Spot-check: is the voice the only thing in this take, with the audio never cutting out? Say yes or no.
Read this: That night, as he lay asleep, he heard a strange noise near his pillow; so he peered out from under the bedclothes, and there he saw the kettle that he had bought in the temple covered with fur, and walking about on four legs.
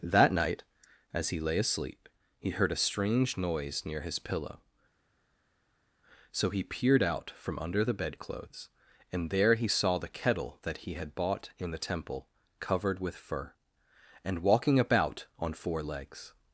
yes